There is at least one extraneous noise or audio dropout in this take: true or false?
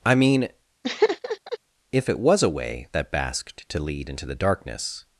true